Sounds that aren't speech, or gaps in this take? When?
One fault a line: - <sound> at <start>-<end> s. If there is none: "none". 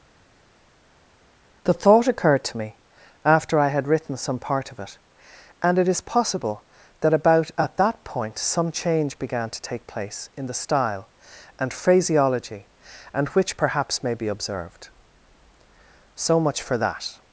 none